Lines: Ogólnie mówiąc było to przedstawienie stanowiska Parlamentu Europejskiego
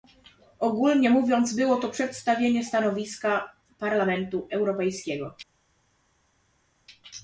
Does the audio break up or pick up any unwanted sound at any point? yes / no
no